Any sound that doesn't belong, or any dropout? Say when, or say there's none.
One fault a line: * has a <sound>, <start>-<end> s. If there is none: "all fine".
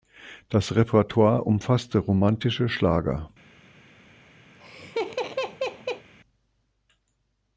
* has a laugh, 4.5-6.1 s